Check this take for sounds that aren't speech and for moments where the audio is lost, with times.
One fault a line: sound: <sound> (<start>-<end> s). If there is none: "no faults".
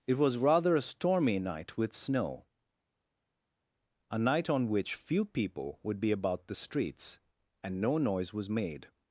no faults